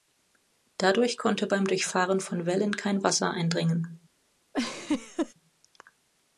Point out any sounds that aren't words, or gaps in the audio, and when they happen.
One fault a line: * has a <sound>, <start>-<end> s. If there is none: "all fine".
* has a laugh, 4.5-5.3 s